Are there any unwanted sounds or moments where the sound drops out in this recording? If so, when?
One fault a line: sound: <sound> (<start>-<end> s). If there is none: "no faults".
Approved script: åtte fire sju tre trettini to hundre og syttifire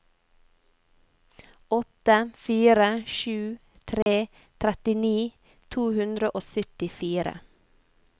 sound: dropout (4.0-4.1 s)